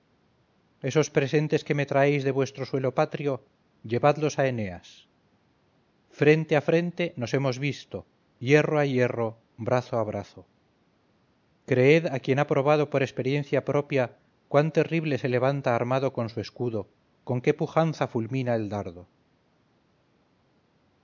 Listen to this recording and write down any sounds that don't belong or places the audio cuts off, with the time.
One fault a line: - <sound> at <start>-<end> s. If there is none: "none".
none